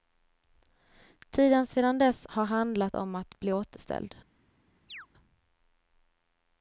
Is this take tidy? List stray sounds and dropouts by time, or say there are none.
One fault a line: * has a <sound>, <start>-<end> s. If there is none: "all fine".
* has a chirp, 4.9-5.1 s